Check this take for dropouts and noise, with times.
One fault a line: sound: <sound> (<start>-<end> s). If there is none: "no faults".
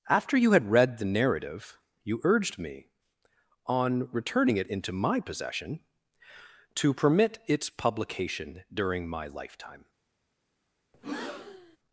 sound: breath (10.9-11.8 s)